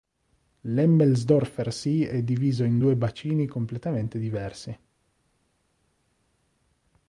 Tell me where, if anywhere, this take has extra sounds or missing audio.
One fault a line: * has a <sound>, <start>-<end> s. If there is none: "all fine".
all fine